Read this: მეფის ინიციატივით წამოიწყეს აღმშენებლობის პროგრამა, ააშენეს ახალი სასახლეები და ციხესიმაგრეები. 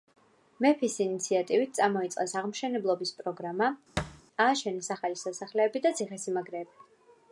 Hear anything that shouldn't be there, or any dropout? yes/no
yes